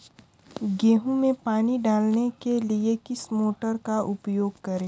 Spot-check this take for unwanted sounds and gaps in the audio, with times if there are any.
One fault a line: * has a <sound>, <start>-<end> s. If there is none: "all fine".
all fine